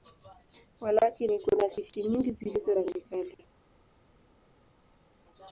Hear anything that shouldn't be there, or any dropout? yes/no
no